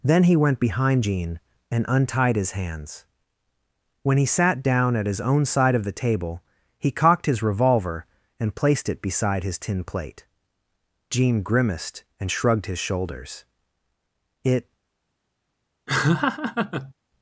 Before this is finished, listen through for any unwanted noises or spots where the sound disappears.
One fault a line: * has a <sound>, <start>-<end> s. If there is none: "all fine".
* has a laugh, 15.9-16.9 s